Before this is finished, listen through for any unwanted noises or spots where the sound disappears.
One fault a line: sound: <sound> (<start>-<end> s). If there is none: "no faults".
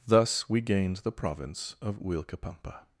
no faults